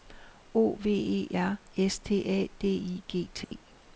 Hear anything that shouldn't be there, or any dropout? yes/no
yes